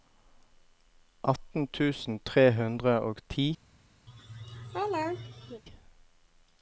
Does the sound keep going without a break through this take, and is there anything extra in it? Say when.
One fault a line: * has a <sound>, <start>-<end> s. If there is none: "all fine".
* has a laugh, 4.1-5.6 s